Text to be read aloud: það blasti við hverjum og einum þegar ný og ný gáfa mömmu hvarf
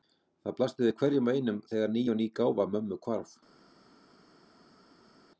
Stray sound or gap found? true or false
false